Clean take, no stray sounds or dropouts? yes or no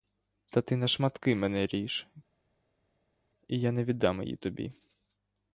yes